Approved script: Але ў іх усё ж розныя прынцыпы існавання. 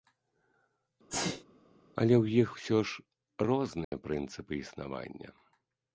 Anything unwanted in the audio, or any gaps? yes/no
yes